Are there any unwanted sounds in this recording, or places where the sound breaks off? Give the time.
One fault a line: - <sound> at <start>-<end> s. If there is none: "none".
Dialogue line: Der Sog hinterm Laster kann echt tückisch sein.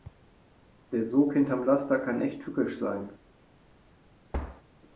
- thud at 4.3-4.6 s